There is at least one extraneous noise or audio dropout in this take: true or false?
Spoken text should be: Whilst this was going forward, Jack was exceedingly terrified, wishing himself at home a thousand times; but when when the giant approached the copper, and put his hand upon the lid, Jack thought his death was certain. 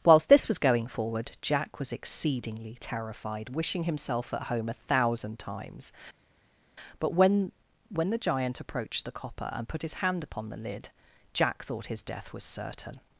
false